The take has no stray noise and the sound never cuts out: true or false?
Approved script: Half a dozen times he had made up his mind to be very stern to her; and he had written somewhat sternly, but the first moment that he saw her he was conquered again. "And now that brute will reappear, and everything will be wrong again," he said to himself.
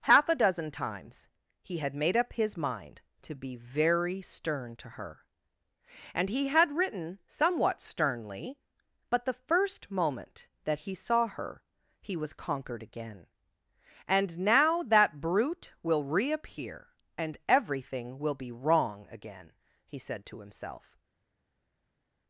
true